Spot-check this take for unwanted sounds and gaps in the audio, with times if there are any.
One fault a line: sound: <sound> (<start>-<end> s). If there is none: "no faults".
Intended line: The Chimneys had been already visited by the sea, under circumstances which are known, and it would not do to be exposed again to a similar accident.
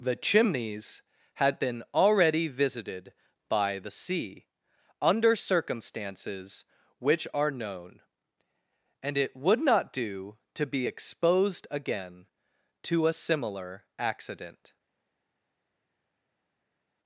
no faults